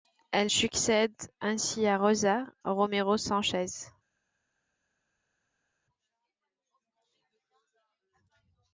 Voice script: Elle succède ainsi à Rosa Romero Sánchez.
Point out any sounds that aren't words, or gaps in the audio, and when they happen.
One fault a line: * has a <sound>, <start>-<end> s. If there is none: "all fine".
all fine